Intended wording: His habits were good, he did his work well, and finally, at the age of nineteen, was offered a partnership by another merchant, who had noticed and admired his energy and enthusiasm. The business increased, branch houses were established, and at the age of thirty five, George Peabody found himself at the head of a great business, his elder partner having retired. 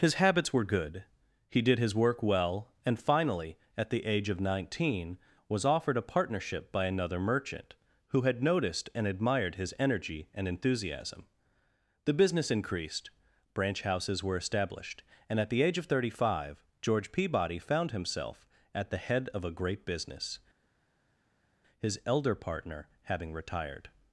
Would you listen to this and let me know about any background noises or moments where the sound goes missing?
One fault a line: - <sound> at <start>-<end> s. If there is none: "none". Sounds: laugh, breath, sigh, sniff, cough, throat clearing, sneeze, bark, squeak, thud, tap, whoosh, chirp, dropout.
none